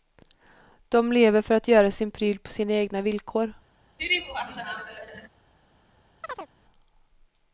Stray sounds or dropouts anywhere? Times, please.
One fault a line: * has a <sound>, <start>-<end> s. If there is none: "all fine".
* has a laugh, 4.0-5.3 s
* has a chirp, 6.2-6.5 s